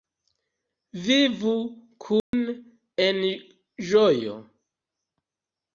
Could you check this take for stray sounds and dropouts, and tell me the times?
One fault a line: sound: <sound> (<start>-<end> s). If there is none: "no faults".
sound: dropout (2.2-2.3 s)